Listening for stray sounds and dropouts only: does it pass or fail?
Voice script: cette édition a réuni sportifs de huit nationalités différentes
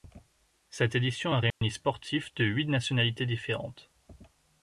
fail